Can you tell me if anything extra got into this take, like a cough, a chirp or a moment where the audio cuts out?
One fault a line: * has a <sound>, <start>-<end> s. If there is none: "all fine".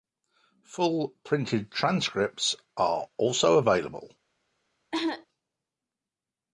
* has a cough, 4.9-5.3 s